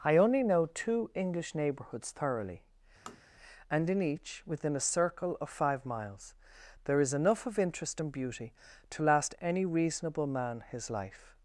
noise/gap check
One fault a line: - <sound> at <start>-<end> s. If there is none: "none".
- tap at 3.1-3.2 s